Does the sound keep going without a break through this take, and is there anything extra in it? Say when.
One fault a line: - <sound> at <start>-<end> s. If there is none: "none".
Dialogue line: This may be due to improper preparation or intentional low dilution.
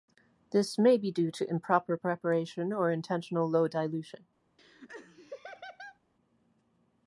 - laugh at 4.6-6.0 s